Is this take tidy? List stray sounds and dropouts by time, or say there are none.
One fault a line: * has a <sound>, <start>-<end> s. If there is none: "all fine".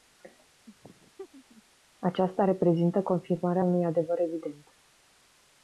* has a laugh, 0.7-1.6 s